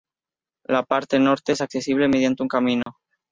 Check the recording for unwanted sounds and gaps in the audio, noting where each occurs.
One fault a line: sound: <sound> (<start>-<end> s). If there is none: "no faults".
sound: dropout (2.8-2.9 s)